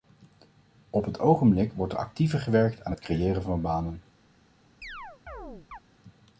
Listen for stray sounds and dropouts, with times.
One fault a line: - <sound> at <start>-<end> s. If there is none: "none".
- chirp at 4.8-5.8 s